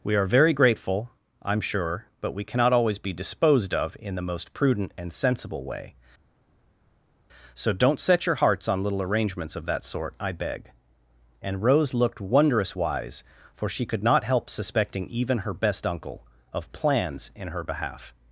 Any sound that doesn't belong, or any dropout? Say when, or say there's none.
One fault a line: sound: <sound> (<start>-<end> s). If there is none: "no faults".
no faults